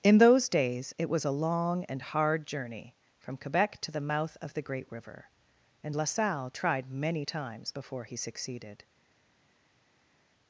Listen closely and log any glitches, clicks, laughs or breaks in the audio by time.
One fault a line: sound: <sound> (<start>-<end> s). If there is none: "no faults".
no faults